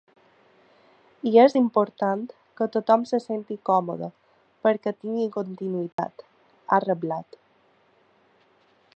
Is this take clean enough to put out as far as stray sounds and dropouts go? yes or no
no